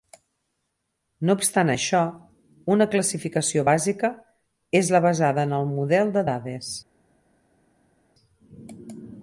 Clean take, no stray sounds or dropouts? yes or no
yes